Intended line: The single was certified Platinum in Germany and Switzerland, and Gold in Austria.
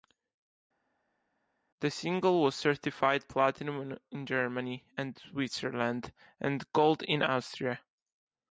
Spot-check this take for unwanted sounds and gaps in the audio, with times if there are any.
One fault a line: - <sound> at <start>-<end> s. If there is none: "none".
none